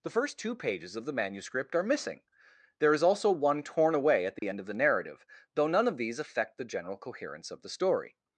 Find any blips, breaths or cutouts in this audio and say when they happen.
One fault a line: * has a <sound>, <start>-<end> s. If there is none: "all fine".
* has a dropout, 4.4-4.4 s